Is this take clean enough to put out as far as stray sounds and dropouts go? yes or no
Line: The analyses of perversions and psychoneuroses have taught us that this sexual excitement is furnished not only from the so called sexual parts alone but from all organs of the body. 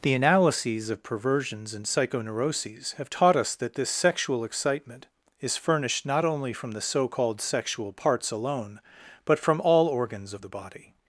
yes